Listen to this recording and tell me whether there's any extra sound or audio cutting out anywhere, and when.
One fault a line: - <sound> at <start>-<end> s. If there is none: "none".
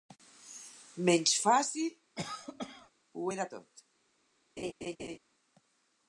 - cough at 2.2-2.9 s
- laugh at 4.6-5.2 s